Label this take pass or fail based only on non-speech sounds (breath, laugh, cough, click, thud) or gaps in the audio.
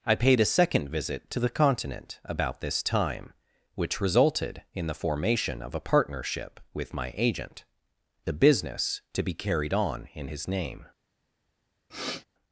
fail